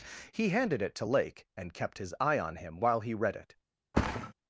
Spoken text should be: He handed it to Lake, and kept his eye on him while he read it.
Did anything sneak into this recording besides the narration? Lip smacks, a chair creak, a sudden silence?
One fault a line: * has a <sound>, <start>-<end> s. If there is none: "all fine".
* has a thud, 3.9-4.3 s